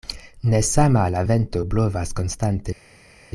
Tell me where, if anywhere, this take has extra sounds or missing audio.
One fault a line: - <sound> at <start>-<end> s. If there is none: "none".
none